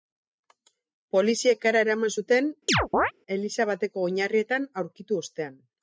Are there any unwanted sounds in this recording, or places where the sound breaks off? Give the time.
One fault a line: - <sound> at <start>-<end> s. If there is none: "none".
- chirp at 2.7-3.1 s